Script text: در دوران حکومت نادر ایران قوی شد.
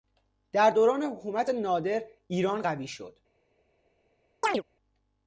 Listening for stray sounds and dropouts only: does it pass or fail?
fail